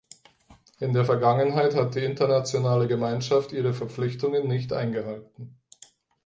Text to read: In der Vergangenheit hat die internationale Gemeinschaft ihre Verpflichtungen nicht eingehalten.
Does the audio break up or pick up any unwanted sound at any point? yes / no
no